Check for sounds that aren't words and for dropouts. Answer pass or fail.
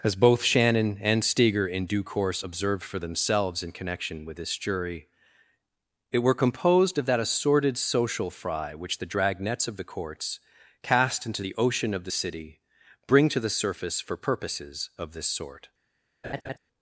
fail